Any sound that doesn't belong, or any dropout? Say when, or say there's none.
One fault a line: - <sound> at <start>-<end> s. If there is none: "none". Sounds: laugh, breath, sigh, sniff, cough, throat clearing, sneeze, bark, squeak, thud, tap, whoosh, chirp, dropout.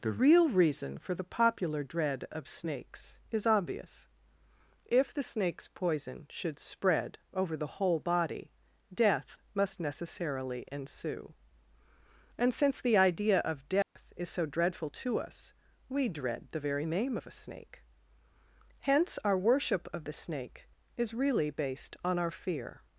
- dropout at 13.8-14.0 s